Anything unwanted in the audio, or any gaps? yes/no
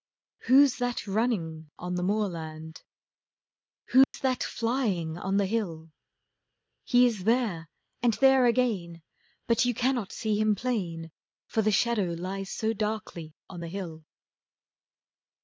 yes